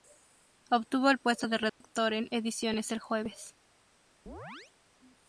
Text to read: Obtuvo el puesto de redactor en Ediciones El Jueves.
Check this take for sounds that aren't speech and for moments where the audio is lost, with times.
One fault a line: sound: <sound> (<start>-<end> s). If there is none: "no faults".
sound: dropout (1.7-1.8 s)
sound: chirp (4.3-4.7 s)